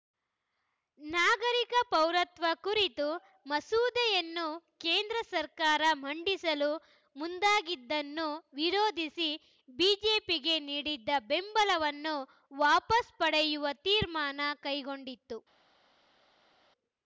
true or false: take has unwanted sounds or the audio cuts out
false